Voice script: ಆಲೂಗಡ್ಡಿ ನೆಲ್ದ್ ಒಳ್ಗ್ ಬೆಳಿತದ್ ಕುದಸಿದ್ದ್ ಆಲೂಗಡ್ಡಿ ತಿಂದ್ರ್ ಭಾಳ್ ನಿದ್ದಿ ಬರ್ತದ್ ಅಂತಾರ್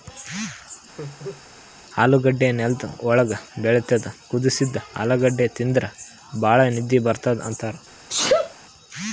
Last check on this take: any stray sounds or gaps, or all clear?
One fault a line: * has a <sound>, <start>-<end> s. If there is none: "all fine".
* has a laugh, 1.0-1.4 s
* has a sneeze, 8.1-8.5 s